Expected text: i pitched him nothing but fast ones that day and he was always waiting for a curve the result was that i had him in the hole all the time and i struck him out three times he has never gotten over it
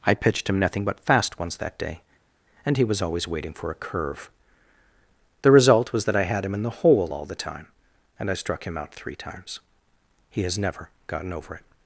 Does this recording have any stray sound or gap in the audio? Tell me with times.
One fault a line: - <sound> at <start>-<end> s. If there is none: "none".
none